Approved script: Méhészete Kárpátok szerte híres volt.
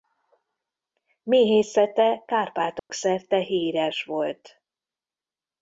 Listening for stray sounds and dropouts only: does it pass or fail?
fail